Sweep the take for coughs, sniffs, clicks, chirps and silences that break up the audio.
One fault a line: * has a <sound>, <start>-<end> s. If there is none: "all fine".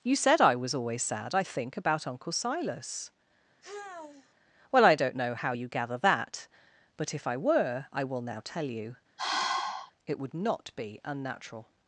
* has a sigh, 3.6-4.3 s
* has a sigh, 9.2-9.9 s